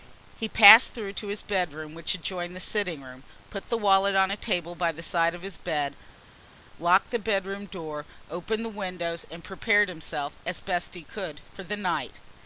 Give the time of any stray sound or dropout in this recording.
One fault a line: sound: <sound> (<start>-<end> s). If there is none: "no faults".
no faults